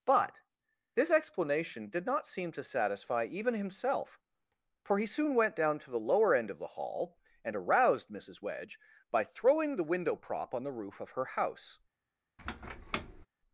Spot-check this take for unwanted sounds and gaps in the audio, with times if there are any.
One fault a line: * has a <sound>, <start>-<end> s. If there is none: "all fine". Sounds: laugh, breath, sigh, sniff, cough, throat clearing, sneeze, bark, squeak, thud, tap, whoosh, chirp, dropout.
* has a squeak, 12.4-13.3 s